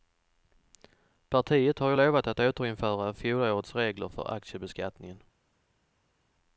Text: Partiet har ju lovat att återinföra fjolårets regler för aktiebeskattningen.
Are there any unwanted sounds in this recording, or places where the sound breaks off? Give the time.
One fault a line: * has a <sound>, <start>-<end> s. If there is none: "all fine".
all fine